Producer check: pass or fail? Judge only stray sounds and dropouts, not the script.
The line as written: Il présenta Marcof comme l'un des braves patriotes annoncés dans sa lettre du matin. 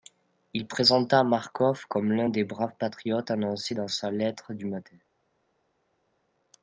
pass